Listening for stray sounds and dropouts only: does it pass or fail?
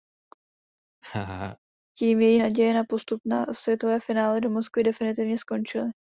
fail